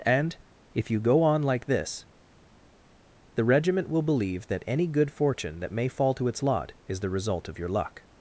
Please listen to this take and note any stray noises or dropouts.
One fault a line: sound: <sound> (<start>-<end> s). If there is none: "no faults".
no faults